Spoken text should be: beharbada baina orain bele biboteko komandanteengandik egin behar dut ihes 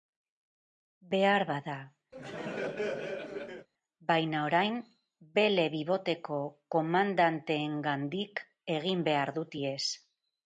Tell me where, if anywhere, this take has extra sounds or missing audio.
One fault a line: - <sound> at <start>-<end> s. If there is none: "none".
- laugh at 2.1-3.7 s